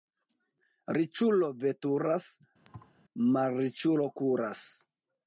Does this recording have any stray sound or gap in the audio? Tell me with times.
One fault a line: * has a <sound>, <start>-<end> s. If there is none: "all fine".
* has a thud, 2.6-2.9 s